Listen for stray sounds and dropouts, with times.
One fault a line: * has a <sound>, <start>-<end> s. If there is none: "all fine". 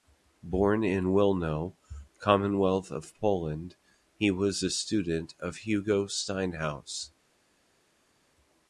all fine